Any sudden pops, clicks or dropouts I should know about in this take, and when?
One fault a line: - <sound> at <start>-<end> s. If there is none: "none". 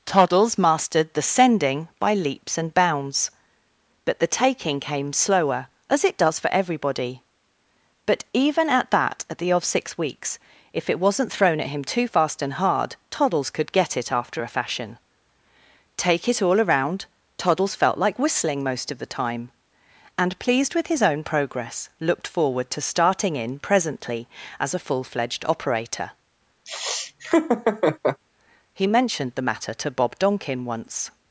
- laugh at 26.7-28.2 s